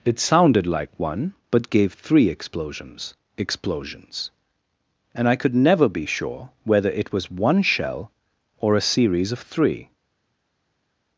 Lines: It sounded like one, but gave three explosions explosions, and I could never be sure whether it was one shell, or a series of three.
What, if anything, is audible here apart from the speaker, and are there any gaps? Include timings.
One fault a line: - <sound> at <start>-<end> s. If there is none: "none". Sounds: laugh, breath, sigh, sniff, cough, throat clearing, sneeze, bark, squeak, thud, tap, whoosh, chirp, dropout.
none